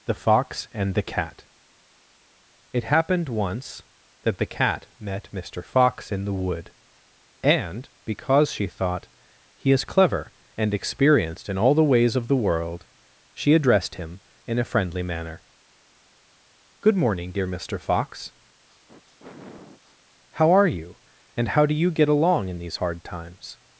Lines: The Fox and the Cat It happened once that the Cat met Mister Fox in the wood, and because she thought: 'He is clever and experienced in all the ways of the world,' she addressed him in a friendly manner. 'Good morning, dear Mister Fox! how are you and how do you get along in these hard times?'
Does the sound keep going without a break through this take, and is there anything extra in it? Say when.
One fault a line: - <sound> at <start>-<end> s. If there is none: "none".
- sniff at 18.7-20.2 s